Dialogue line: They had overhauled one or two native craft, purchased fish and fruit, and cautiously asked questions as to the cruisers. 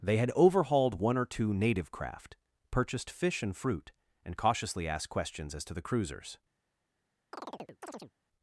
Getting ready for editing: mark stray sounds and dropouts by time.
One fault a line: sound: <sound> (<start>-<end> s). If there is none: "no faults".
sound: chirp (7.3-8.1 s)